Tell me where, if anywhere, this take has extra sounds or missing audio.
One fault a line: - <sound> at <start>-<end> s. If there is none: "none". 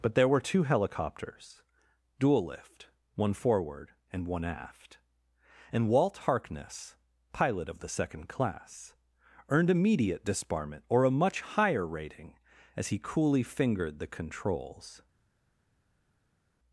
none